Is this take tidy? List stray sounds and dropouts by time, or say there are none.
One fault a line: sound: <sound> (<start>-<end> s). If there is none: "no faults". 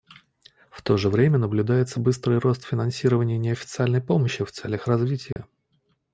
sound: dropout (5.3-5.4 s)